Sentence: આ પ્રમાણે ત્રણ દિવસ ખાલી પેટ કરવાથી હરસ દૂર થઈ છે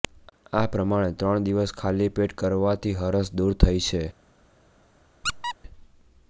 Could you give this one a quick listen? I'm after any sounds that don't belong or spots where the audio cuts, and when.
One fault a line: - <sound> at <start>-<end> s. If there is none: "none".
- squeak at 5.2-5.6 s